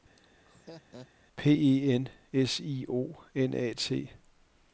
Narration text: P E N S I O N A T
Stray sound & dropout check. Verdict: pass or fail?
fail